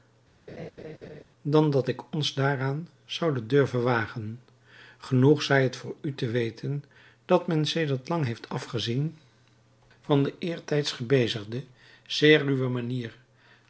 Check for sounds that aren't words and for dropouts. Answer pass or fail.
fail